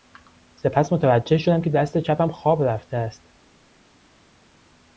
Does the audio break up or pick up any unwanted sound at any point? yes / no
no